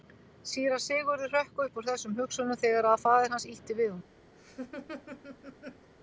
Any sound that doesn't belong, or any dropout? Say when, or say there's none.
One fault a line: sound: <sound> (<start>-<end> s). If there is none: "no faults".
sound: laugh (4.3-5.9 s)